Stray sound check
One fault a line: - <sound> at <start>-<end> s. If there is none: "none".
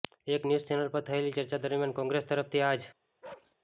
- bark at 3.2-3.6 s